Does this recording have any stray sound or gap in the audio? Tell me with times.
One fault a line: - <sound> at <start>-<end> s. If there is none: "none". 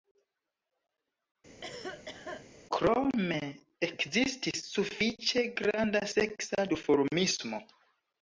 - cough at 1.6-2.5 s